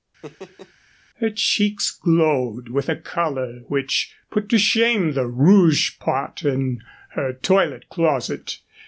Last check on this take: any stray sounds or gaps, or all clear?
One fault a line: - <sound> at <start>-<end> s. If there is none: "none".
- laugh at 0.2-0.7 s